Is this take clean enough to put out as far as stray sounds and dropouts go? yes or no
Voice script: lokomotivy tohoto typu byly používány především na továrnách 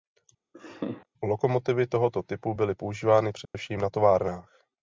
no